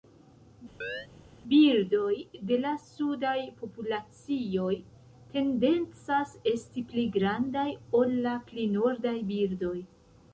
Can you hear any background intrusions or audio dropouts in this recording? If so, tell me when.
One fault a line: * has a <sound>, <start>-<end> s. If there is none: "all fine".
* has a chirp, 0.8-1.1 s